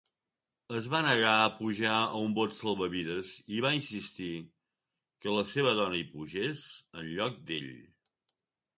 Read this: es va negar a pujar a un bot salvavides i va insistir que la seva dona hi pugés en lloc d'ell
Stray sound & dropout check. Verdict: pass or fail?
pass